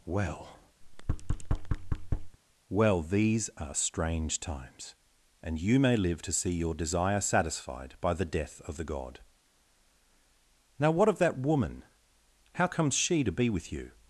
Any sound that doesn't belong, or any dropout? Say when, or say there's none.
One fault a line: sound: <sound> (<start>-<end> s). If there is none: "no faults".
sound: thud (0.8-2.4 s)